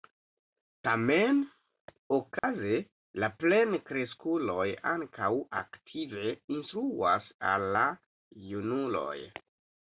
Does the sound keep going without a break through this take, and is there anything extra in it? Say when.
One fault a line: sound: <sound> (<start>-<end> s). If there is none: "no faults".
sound: dropout (2.4-2.4 s)